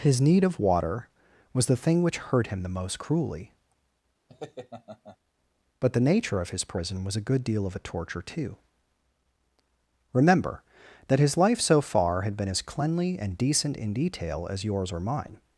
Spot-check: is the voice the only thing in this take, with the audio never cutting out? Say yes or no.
no